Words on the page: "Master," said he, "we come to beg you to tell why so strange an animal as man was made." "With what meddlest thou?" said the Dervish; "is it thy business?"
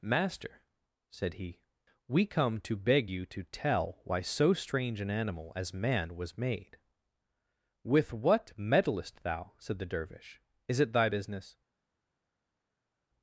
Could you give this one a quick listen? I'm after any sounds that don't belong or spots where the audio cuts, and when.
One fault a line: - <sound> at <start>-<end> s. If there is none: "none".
none